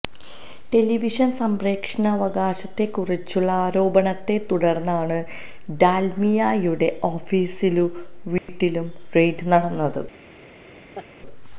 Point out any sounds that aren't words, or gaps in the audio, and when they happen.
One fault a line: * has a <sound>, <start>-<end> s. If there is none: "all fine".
* has a dropout, 8.4-8.5 s
* has a laugh, 10.9-11.1 s